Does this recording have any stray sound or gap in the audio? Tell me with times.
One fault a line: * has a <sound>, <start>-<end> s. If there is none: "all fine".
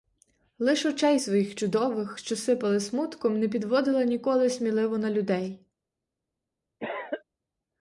* has a cough, 6.8-7.2 s